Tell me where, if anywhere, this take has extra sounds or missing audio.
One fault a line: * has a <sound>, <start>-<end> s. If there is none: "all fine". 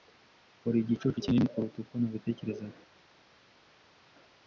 all fine